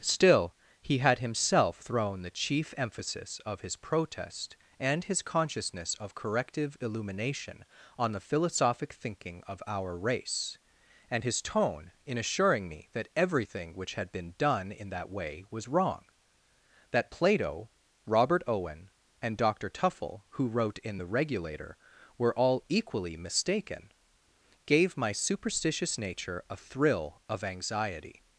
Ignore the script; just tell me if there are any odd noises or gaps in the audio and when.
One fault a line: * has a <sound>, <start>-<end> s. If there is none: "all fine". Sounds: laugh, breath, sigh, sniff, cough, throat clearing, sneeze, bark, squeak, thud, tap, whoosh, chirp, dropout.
all fine